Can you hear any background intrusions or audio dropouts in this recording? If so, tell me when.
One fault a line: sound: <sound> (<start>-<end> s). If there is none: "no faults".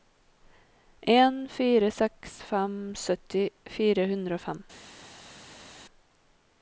no faults